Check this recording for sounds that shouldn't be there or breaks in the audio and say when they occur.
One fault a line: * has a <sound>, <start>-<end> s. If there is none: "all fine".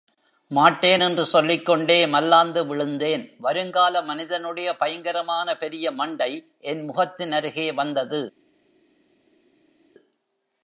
all fine